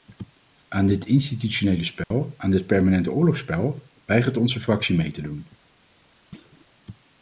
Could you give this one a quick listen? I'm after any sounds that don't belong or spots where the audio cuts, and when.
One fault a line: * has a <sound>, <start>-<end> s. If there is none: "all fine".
* has a dropout, 2.0-2.1 s
* has a thud, 6.3-6.7 s